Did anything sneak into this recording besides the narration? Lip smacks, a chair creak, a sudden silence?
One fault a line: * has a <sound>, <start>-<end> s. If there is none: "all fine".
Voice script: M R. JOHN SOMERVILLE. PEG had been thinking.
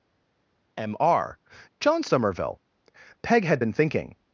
all fine